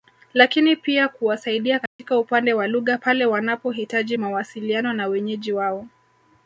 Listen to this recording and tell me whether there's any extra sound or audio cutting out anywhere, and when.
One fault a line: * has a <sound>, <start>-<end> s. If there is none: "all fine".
* has a dropout, 1.9-2.0 s